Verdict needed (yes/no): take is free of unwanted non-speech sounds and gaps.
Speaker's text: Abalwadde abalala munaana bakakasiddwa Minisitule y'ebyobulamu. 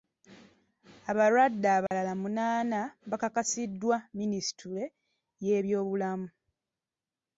no